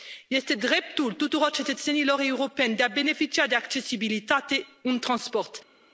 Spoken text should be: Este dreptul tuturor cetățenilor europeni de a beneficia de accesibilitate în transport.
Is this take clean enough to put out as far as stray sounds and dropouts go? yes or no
yes